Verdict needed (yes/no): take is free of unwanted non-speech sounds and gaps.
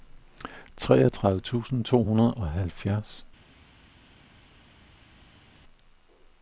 yes